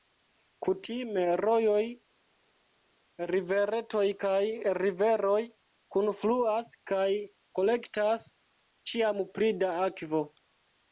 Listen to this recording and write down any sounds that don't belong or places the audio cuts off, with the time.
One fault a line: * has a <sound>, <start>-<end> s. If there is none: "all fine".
all fine